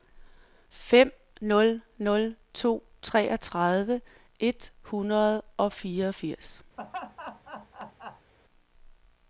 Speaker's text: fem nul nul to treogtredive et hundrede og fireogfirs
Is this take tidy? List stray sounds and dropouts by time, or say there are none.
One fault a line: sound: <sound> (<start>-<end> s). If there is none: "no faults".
sound: laugh (6.8-8.3 s)